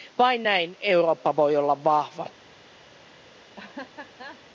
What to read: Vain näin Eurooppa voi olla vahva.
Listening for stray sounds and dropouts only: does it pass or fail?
fail